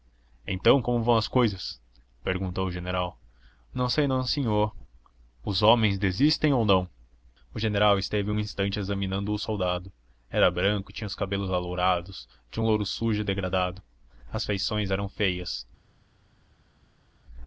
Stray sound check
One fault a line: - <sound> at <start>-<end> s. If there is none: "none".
none